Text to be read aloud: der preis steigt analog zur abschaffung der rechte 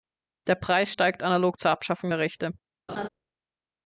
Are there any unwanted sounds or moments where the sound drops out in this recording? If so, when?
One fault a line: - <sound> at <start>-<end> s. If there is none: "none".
- laugh at 2.9-3.1 s